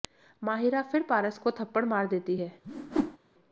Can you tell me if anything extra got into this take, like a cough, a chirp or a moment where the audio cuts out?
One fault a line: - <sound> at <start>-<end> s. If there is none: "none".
- whoosh at 2.6-3.2 s